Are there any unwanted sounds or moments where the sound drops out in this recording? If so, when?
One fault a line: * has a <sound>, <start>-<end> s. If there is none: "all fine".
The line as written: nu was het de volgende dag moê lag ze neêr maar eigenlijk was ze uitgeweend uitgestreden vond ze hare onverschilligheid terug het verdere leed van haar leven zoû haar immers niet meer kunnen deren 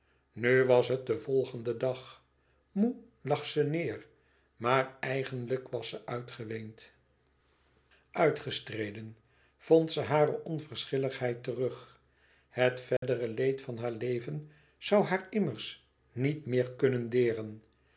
* has a dropout, 13.0-13.0 s